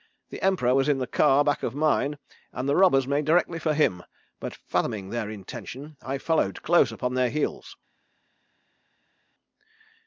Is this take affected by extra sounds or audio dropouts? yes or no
no